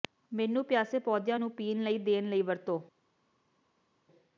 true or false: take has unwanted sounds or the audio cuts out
false